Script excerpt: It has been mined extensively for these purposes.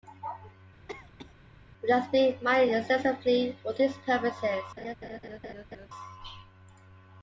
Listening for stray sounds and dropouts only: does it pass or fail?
fail